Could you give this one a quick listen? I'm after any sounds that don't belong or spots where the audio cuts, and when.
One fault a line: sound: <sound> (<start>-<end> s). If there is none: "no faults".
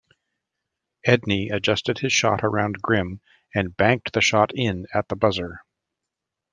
no faults